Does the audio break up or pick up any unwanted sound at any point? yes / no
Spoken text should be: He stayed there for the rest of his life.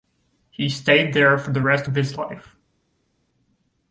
no